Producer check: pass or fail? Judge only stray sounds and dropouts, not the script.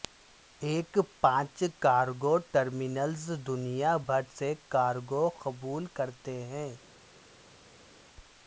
pass